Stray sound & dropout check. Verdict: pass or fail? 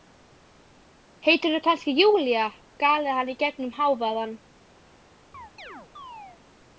fail